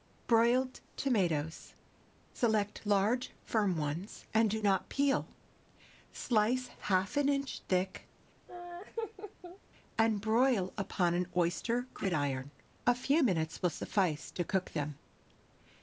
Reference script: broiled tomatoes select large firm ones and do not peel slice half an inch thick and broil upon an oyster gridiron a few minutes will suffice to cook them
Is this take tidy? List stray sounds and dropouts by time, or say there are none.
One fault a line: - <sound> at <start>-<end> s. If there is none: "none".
- laugh at 8.5-9.6 s